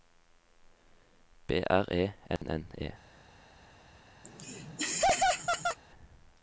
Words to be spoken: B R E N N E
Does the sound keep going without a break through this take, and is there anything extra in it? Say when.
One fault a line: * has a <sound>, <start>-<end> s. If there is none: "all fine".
* has a dropout, 2.4-2.4 s
* has a laugh, 4.2-5.8 s